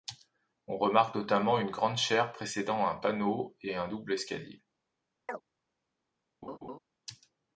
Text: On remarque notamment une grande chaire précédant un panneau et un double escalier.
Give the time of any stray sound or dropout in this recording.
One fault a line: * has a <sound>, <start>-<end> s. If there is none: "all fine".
* has a chirp, 5.3-5.4 s
* has a laugh, 6.4-6.8 s